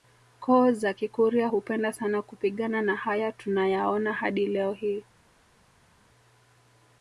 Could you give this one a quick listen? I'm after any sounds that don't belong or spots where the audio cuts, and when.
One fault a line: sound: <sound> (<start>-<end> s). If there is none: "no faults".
no faults